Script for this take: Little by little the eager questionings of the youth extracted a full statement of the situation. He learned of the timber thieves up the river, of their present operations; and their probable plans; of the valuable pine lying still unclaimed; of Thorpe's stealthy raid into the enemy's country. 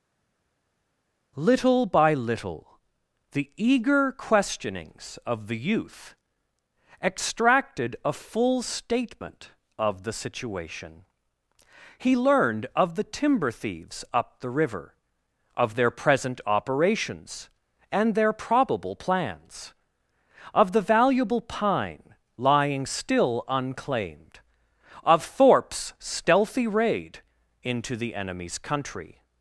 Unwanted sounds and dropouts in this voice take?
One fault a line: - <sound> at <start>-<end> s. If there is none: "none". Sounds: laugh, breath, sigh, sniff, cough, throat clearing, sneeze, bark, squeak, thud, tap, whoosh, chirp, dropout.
none